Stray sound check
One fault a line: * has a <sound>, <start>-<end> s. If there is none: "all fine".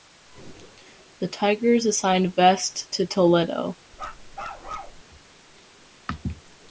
* has a bark, 3.9-5.0 s